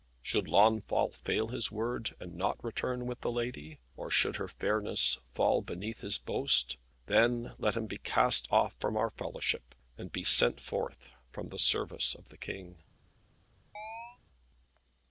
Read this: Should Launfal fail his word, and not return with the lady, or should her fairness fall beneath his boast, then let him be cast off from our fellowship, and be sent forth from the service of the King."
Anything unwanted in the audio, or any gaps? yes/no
yes